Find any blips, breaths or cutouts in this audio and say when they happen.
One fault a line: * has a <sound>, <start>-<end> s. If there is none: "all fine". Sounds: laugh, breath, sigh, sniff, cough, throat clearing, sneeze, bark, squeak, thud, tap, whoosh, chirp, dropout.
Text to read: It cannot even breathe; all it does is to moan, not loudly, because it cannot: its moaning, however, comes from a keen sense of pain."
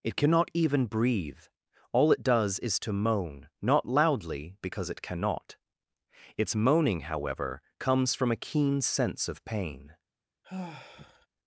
* has a sigh, 10.4-11.3 s